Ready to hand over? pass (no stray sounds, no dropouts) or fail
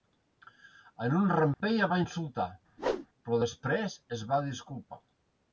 fail